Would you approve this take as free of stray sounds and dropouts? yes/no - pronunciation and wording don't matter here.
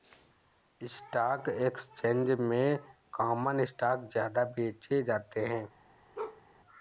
no